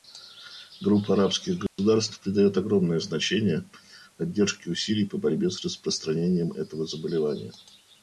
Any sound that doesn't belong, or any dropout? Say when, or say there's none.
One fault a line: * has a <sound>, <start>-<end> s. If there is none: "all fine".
* has a dropout, 1.7-1.8 s